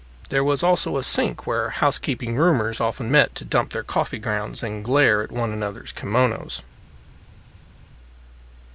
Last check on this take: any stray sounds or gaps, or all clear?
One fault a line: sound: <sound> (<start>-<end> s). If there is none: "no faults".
no faults